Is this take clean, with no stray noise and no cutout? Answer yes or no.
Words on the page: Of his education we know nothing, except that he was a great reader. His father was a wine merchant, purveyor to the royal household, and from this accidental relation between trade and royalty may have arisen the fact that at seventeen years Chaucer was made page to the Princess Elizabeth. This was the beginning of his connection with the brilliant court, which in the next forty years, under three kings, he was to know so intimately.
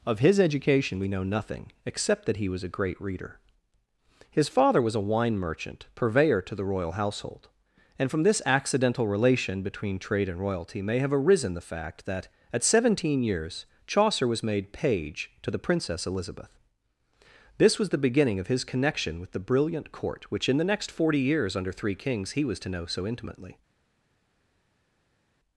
yes